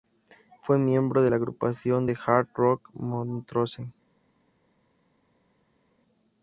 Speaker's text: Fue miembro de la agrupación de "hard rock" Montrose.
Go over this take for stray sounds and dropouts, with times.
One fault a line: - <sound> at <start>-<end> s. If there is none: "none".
none